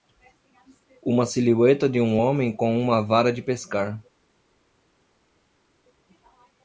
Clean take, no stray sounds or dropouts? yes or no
yes